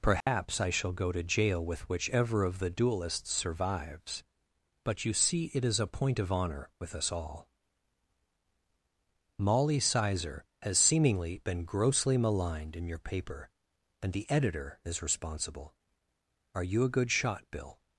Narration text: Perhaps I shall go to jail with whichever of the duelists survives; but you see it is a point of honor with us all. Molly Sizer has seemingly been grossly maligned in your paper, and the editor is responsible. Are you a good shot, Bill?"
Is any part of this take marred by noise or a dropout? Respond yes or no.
yes